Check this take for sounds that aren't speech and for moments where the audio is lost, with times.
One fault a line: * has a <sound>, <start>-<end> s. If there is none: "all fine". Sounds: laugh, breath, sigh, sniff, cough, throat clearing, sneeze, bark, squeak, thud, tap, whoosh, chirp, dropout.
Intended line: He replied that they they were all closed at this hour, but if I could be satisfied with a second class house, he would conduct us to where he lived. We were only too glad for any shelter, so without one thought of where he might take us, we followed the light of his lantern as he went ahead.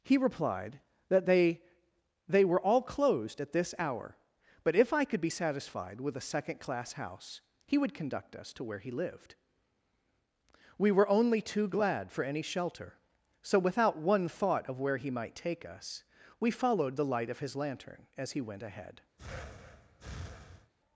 * has a breath, 19.2-20.7 s